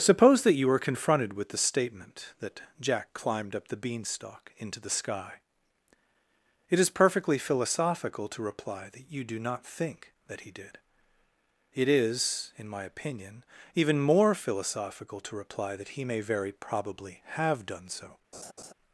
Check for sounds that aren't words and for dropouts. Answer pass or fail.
fail